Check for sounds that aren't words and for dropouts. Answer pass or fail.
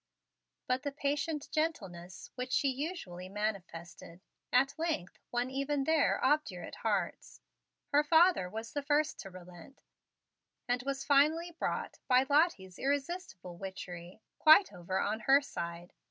pass